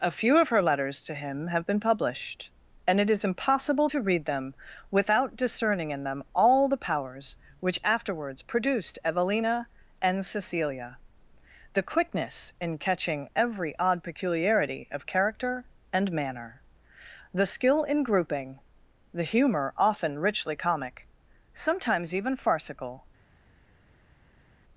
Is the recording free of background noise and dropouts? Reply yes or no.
yes